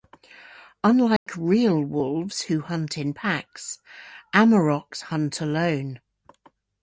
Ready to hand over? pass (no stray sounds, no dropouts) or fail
fail